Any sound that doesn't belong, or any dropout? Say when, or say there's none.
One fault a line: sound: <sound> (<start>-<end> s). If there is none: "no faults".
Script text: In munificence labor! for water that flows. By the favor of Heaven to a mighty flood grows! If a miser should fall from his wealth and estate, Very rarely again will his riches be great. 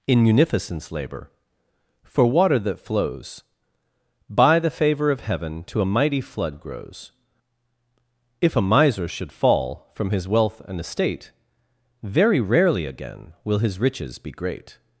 no faults